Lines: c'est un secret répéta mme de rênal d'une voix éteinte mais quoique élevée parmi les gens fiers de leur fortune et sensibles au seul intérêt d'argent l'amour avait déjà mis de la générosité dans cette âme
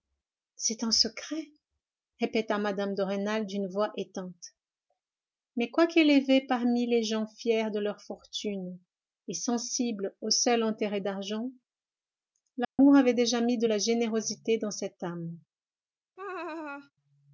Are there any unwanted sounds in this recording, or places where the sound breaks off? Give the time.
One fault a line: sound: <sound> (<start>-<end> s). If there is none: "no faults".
sound: dropout (12.6-12.8 s)
sound: laugh (16.2-16.9 s)